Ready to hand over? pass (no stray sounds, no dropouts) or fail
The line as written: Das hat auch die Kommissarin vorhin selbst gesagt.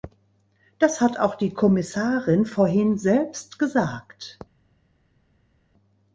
pass